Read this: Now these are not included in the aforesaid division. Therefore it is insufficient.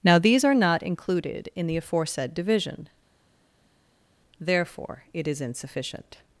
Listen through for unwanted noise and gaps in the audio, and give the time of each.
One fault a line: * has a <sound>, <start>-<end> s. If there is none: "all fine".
all fine